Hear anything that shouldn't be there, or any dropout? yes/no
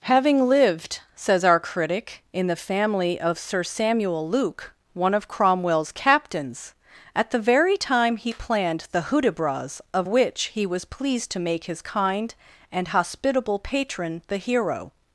no